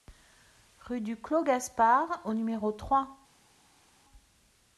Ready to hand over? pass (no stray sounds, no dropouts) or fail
pass